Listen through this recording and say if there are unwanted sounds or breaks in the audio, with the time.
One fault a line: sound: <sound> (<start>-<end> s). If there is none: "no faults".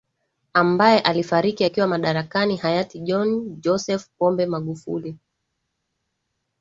no faults